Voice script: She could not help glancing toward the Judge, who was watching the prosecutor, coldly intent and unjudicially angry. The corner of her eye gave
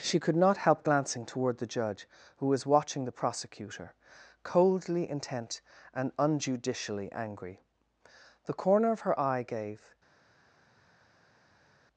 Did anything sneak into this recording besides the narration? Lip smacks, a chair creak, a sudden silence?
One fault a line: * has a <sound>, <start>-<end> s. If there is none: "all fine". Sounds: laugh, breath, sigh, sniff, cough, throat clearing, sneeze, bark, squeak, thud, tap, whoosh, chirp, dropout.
all fine